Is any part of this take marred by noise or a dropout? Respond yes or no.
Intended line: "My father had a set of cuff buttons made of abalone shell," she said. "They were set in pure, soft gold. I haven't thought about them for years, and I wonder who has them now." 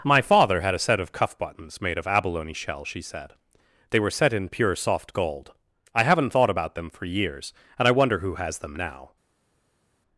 no